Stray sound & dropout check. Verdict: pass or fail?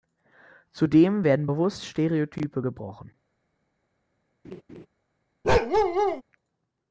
fail